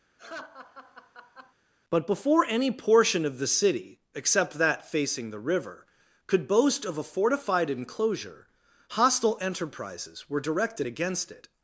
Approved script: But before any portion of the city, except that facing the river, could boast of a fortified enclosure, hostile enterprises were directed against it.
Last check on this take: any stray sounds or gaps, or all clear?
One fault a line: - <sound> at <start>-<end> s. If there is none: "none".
- laugh at 0.2-1.5 s